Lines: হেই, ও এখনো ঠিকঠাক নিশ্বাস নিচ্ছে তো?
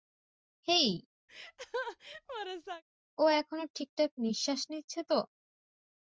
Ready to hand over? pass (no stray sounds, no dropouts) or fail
fail